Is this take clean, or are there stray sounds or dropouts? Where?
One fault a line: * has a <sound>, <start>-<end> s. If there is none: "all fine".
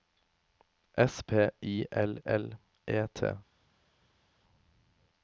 all fine